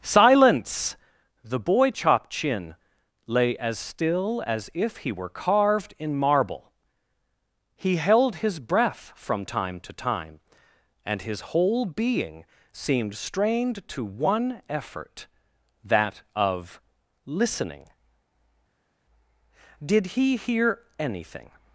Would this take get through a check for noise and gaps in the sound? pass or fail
pass